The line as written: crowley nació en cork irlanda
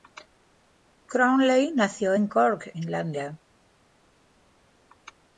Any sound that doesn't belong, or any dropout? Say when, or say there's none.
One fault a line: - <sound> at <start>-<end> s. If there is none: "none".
none